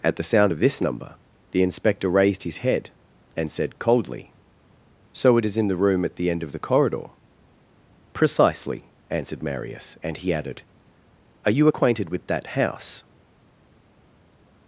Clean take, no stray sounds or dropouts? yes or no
yes